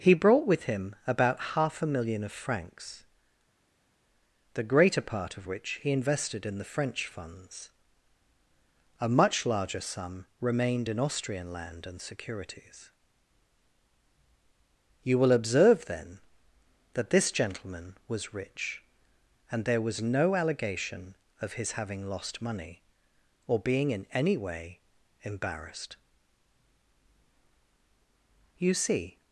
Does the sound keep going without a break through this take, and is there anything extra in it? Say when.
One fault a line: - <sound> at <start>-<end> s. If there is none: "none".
none